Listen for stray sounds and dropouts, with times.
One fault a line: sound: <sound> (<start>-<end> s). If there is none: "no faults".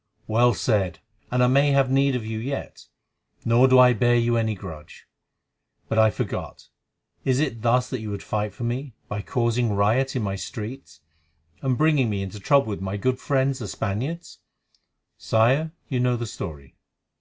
no faults